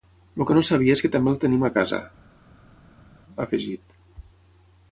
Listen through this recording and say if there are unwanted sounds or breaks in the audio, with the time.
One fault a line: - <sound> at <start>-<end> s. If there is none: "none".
none